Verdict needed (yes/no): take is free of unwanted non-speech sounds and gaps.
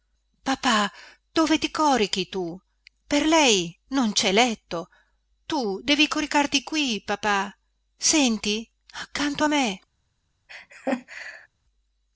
no